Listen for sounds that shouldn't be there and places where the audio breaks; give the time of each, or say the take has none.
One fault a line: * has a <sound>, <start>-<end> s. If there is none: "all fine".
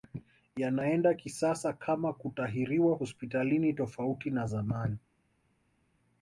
all fine